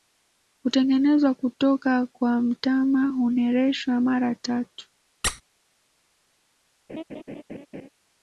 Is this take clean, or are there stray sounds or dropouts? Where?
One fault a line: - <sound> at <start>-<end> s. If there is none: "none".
- squeak at 5.2-5.4 s
- laugh at 6.9-7.9 s